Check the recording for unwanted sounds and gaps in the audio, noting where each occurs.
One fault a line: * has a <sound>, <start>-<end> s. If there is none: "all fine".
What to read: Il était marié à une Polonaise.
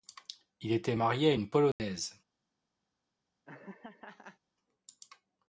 * has a dropout, 1.7-1.8 s
* has a laugh, 3.5-4.4 s